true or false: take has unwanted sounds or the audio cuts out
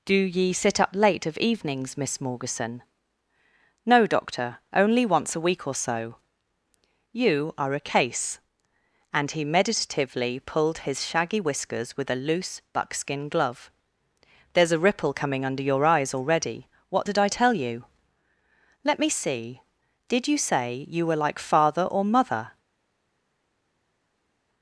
false